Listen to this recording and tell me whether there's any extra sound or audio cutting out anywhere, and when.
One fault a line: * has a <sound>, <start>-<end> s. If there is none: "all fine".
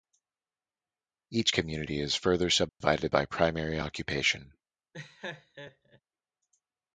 * has a dropout, 2.7-2.8 s
* has a laugh, 4.9-6.0 s